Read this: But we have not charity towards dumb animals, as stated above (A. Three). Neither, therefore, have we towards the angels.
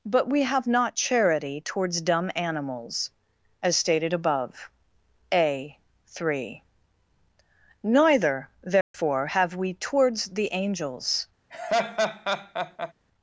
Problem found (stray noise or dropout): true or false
true